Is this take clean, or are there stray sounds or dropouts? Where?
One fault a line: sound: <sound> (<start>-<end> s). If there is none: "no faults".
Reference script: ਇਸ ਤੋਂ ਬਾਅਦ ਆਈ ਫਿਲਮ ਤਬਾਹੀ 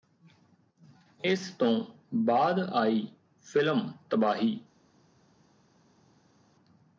no faults